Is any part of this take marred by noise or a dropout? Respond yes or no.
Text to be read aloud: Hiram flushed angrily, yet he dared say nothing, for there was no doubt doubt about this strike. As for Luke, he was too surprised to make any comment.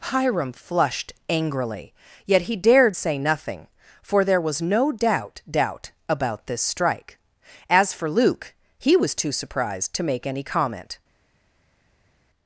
no